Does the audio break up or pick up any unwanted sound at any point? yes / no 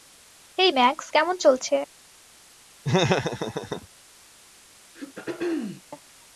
yes